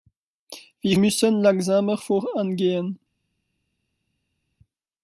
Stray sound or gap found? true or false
false